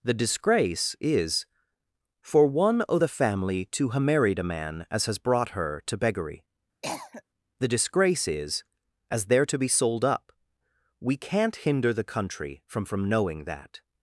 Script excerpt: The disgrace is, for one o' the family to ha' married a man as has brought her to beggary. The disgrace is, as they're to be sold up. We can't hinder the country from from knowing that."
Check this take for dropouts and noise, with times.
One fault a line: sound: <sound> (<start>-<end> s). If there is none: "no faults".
sound: cough (6.8-7.2 s)